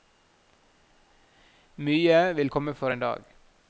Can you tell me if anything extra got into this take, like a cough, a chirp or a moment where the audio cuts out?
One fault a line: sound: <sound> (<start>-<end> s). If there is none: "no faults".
no faults